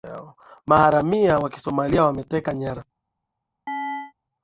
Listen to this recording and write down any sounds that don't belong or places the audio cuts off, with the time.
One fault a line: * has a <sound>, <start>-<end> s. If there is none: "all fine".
* has a chirp, 3.7-4.1 s